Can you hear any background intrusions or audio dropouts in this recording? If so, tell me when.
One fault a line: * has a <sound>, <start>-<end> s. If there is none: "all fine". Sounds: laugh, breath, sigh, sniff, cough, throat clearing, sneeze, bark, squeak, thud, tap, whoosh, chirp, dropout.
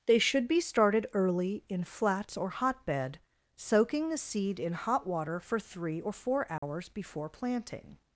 * has a dropout, 6.6-6.6 s